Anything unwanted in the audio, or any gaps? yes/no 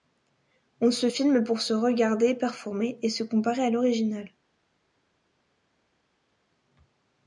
no